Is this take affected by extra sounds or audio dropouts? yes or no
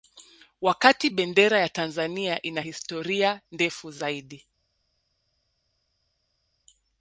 no